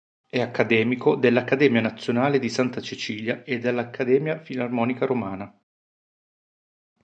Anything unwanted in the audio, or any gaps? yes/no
no